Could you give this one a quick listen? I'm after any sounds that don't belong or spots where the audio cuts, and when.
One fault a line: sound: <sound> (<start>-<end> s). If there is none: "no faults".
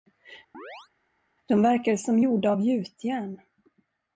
sound: chirp (0.5-0.9 s)